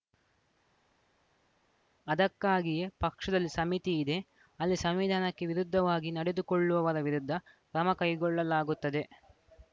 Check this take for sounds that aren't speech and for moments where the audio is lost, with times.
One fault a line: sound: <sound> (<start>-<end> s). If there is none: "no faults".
no faults